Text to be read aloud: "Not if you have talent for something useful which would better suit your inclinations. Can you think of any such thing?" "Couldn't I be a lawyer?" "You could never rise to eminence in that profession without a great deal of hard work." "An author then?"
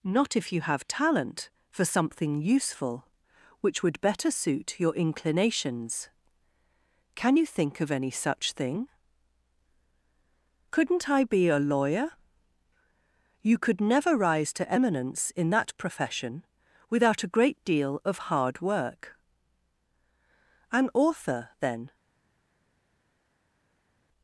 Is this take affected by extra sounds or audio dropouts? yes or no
no